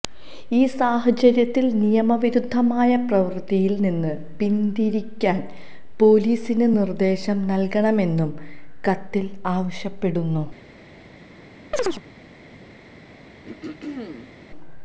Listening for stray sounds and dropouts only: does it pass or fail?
fail